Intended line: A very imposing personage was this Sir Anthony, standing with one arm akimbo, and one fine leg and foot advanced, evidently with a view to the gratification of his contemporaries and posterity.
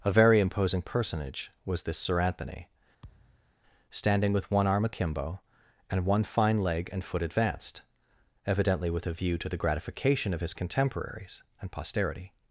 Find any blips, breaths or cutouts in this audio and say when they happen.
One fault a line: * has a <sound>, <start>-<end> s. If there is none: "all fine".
* has a thud, 3.0-3.5 s